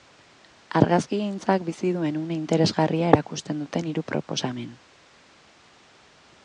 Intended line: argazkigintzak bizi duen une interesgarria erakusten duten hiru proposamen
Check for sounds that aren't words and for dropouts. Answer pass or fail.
pass